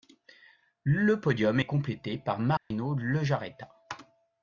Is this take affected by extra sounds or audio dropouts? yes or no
yes